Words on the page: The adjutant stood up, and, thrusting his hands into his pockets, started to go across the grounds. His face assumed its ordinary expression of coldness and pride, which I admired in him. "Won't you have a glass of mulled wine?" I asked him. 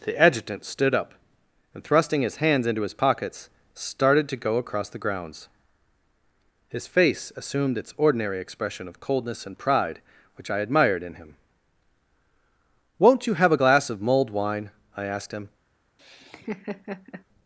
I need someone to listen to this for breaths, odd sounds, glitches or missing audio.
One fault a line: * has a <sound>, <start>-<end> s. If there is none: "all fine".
* has a laugh, 16.0-17.2 s